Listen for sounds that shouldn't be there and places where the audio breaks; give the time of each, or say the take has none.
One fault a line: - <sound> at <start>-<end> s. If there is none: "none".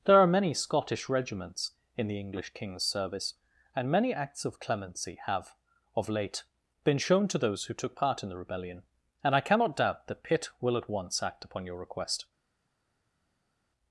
none